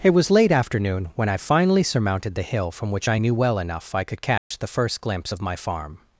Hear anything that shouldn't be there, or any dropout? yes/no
yes